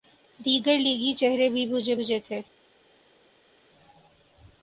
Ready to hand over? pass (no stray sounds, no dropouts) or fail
pass